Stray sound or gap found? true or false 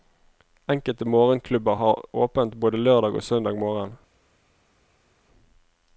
false